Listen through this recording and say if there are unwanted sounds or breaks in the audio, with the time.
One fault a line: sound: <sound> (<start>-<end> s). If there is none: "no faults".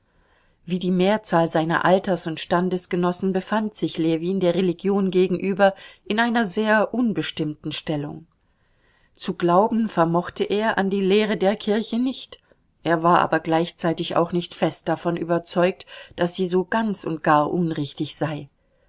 no faults